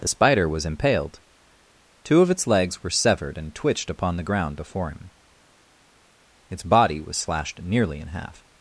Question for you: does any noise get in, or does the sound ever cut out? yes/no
no